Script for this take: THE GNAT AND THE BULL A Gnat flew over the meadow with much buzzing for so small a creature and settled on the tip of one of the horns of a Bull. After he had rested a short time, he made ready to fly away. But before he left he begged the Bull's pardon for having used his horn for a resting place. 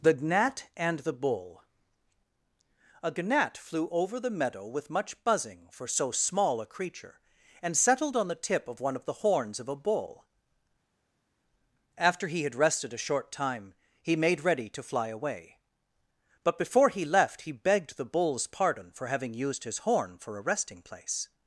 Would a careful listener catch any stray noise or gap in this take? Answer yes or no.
no